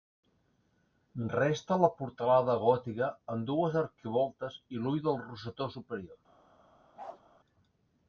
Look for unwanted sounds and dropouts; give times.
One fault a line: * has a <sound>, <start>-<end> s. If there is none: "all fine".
* has a bark, 7.0-7.2 s